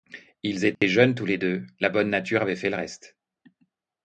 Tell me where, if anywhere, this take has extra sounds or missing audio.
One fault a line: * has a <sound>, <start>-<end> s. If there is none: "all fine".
* has a dropout, 0.7-0.8 s